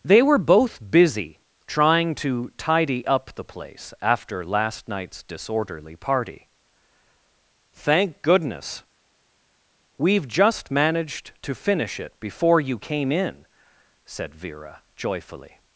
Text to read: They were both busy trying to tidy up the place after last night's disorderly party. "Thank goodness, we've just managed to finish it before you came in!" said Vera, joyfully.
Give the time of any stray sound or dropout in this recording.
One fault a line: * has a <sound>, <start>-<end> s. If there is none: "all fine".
all fine